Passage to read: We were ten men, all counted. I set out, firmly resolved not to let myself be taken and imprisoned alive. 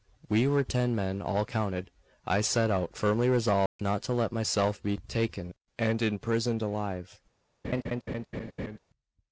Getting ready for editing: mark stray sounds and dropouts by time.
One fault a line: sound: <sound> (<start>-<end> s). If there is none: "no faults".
sound: dropout (3.7-3.8 s)
sound: laugh (7.6-8.8 s)